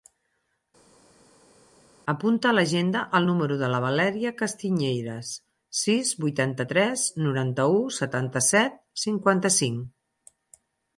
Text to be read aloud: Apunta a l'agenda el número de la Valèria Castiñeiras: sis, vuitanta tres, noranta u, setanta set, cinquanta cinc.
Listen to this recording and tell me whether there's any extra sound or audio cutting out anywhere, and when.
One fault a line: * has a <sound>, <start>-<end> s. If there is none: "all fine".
all fine